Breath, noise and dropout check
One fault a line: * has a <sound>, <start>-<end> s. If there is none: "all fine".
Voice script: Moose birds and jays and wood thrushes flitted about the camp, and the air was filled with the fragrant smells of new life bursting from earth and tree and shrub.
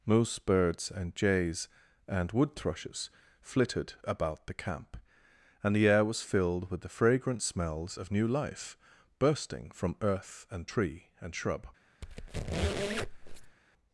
* has a squeak, 12.0-13.6 s